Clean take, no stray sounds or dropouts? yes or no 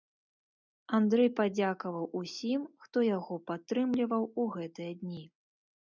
yes